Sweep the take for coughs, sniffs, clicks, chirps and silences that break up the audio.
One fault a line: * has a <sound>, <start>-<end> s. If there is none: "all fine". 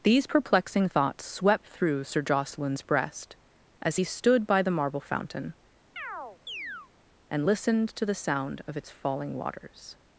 * has a chirp, 6.0-6.9 s